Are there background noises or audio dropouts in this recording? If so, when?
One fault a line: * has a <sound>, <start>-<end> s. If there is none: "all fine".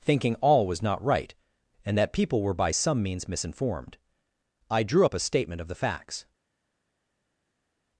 all fine